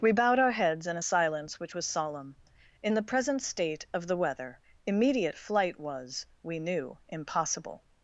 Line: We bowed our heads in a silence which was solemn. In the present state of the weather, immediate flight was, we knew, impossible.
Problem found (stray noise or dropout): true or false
false